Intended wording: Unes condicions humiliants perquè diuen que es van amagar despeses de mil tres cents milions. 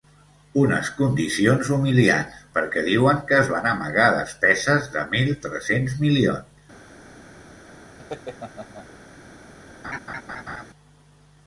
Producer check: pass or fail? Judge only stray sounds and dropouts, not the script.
fail